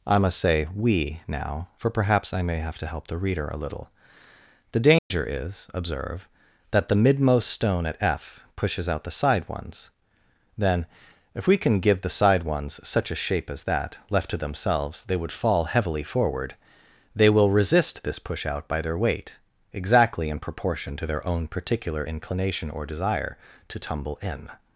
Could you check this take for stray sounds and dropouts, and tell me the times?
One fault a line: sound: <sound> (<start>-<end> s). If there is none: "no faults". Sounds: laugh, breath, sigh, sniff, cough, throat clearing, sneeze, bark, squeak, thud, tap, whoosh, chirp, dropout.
sound: dropout (5.0-5.1 s)